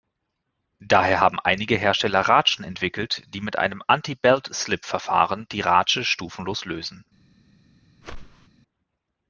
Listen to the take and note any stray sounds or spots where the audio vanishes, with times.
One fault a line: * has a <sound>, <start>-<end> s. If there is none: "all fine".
* has a whoosh, 8.0-8.5 s